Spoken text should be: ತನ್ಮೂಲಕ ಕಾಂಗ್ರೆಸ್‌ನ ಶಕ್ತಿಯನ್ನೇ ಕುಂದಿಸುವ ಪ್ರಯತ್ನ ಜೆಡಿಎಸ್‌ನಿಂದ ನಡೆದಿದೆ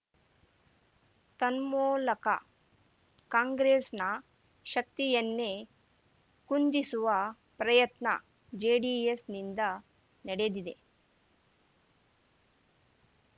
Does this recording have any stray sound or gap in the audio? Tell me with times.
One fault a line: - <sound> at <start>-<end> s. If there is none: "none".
none